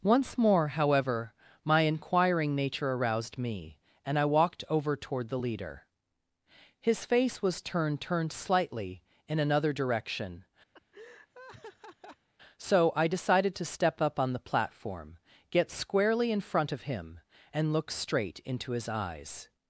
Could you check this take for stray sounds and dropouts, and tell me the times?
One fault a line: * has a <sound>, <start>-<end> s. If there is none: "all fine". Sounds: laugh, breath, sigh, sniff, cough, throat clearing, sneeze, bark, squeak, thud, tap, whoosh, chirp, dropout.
* has a laugh, 10.7-12.3 s